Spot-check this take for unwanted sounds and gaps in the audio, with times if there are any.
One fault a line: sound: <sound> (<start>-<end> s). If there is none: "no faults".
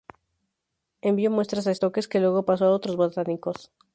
no faults